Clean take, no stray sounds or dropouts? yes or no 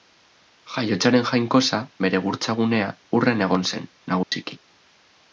no